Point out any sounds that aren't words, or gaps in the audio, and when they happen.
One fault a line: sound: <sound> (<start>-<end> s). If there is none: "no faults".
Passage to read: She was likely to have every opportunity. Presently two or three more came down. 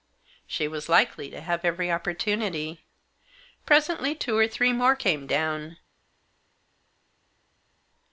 no faults